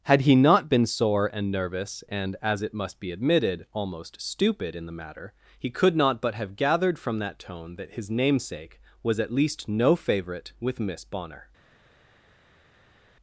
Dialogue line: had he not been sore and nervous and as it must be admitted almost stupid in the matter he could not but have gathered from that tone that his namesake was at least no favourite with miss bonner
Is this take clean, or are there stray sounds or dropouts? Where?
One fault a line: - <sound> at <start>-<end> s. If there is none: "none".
none